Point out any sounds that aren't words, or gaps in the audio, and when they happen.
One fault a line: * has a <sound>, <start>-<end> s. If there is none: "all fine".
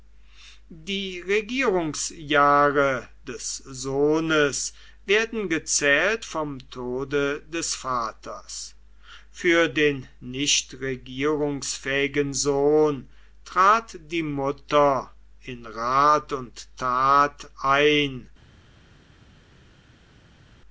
all fine